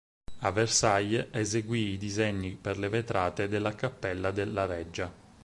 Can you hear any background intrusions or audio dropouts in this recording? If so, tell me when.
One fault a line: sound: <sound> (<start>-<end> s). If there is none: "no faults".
no faults